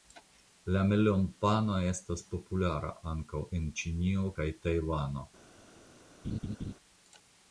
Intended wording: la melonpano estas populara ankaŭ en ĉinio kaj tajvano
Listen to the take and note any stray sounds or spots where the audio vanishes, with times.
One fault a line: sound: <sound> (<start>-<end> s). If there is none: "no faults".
sound: laugh (6.2-6.7 s)